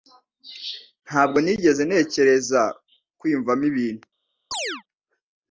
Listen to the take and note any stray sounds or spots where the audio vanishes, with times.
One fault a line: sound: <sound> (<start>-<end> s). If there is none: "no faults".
sound: chirp (4.5-4.8 s)